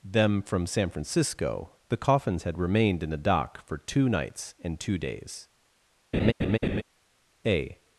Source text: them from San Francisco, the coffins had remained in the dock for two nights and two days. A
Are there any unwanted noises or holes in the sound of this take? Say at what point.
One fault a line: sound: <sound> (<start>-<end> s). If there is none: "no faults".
sound: laugh (6.1-6.8 s)